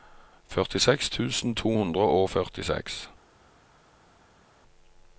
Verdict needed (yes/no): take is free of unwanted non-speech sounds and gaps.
yes